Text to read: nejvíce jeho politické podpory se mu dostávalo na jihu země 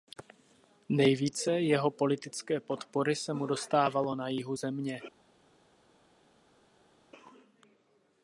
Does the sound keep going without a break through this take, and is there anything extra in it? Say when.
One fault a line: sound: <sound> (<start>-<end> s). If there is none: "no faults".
no faults